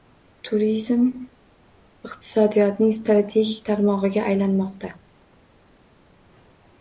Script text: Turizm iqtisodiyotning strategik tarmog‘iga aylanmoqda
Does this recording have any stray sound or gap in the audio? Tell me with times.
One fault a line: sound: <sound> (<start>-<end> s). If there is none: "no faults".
no faults